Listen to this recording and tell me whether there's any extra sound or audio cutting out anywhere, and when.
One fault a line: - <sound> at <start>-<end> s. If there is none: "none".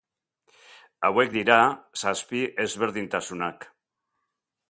none